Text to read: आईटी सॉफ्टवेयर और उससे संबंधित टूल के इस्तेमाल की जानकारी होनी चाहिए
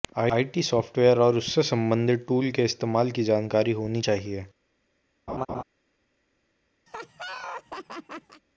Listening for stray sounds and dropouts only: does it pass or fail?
fail